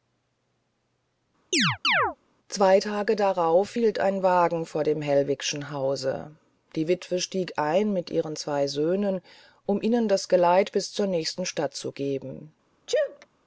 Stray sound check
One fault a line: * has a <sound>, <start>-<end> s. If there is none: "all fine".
* has a chirp, 1.5-2.2 s
* has a sneeze, 12.9-13.3 s